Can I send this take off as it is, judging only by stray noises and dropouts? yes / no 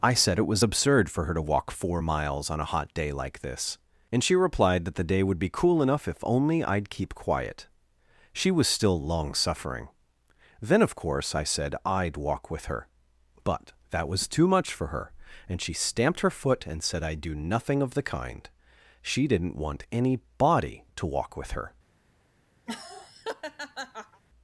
no